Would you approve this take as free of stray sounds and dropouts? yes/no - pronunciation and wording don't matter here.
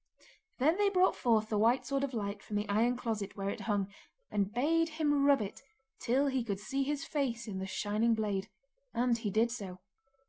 yes